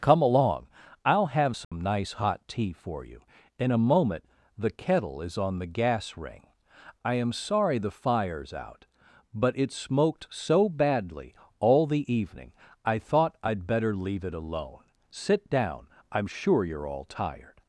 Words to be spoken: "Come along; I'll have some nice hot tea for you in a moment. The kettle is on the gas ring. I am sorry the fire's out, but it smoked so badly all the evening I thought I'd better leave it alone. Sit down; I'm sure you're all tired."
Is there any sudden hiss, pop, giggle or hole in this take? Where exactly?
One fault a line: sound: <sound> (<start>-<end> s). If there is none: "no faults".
sound: dropout (1.6-1.7 s)